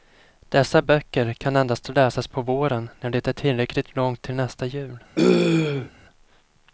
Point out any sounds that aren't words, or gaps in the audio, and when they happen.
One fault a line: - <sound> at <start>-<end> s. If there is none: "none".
- throat clearing at 5.2-5.9 s